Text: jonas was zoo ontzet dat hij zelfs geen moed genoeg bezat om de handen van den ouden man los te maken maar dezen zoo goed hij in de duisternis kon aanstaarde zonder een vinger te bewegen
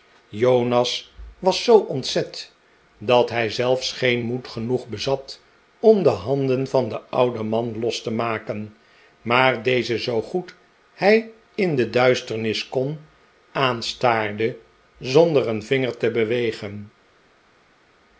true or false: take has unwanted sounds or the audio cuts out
false